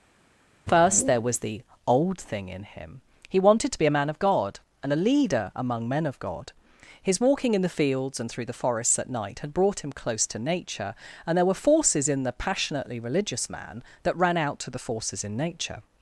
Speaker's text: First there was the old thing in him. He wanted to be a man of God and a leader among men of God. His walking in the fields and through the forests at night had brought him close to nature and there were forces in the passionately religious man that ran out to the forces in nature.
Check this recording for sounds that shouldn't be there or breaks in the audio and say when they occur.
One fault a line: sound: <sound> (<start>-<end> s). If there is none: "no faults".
no faults